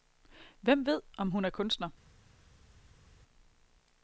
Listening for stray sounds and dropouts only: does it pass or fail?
pass